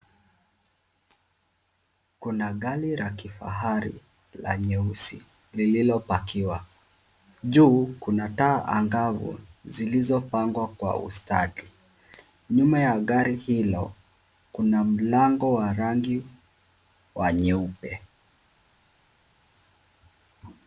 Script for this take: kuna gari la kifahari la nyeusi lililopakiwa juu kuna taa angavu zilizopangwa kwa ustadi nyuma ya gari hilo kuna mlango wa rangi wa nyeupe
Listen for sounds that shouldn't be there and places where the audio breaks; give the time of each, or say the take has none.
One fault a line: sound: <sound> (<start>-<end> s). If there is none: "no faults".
no faults